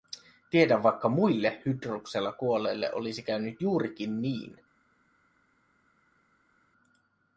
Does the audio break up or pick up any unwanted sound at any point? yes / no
no